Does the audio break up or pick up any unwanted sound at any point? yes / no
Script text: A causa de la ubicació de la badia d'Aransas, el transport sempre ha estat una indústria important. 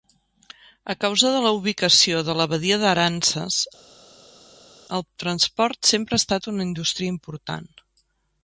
no